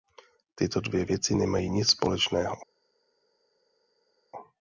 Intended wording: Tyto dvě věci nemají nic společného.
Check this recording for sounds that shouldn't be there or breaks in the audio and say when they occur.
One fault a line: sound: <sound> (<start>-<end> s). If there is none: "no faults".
no faults